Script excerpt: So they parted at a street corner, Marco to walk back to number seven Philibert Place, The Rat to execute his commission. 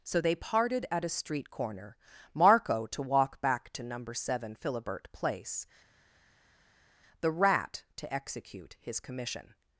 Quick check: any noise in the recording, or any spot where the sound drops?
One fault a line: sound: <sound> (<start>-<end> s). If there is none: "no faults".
no faults